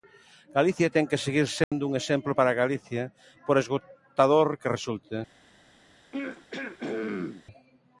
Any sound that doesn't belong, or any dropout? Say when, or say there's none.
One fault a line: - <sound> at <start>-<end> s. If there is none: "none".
- dropout at 1.6-1.7 s
- throat clearing at 6.1-7.4 s